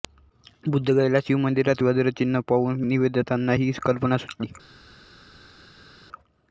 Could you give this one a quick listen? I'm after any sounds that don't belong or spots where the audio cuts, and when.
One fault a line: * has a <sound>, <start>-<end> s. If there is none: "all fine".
all fine